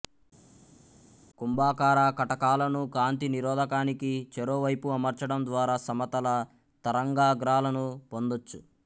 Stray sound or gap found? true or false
false